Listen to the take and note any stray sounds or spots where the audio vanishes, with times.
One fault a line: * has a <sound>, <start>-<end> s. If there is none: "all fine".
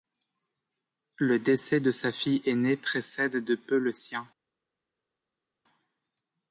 all fine